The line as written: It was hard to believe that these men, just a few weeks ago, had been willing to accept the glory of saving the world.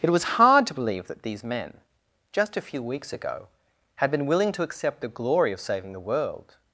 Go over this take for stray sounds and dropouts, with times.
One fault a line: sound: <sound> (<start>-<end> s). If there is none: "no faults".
no faults